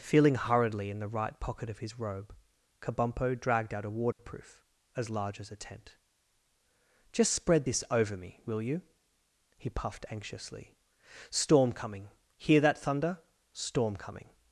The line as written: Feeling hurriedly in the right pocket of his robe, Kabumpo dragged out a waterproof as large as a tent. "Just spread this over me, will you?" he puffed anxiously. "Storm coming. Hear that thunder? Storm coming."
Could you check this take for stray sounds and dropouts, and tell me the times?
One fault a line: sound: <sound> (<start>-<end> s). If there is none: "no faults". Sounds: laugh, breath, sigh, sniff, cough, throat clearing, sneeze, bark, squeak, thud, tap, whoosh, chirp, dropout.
sound: dropout (4.1-4.2 s)